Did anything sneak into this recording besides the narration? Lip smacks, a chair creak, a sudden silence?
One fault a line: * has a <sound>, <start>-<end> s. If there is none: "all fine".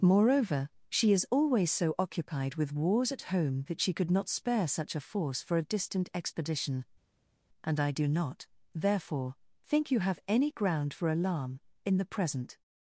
all fine